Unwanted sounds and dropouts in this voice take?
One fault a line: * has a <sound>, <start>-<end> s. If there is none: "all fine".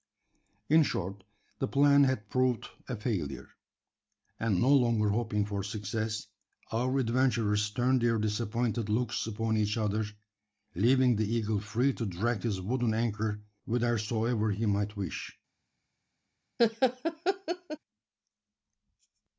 * has a laugh, 16.6-17.8 s